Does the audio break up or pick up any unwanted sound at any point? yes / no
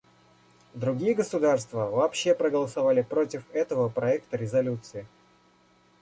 no